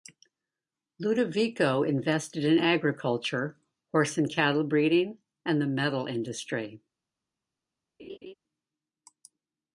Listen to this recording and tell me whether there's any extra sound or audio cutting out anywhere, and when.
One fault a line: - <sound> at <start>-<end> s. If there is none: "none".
- laugh at 8.0-8.3 s